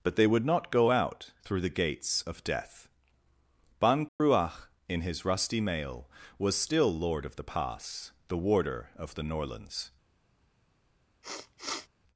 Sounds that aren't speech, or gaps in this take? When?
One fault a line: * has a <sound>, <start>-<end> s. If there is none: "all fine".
* has a dropout, 4.1-4.2 s
* has a sniff, 11.2-11.9 s